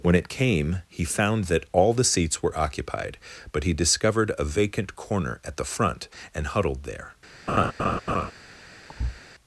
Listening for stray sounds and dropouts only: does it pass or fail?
fail